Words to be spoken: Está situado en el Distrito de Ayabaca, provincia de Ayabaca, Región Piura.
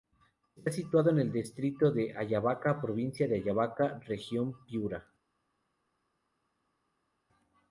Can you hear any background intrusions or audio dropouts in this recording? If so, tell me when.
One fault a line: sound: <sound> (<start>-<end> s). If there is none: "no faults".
no faults